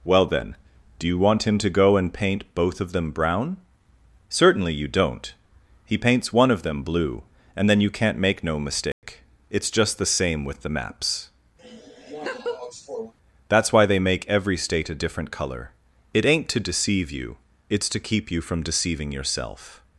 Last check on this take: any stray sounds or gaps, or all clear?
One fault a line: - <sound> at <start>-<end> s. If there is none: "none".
- dropout at 8.9-9.0 s
- laugh at 11.6-13.1 s